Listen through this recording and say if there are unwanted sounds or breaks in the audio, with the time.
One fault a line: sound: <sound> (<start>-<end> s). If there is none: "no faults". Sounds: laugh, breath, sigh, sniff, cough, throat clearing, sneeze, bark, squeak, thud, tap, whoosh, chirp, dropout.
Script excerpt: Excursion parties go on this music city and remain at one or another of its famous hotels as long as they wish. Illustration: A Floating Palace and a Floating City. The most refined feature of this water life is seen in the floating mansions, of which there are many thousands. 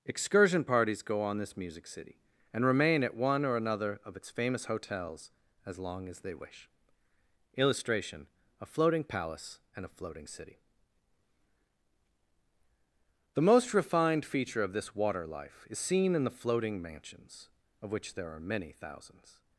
no faults